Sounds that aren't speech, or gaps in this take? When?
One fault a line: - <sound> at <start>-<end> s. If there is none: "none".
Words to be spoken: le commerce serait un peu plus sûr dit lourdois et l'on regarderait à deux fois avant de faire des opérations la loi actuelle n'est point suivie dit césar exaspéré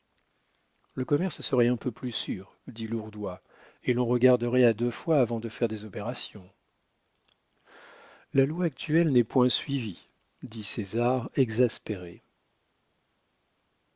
none